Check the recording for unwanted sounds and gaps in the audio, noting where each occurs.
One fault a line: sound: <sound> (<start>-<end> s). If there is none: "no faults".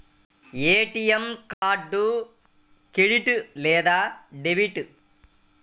sound: dropout (1.5-1.6 s)